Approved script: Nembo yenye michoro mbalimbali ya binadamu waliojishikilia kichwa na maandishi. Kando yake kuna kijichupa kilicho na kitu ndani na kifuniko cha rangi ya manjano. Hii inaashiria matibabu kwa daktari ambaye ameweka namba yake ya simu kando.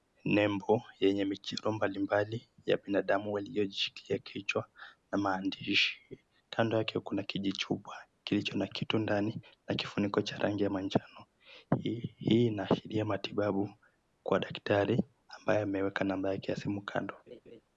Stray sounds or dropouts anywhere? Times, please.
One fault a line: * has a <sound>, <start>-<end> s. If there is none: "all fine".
* has a laugh, 17.3-17.6 s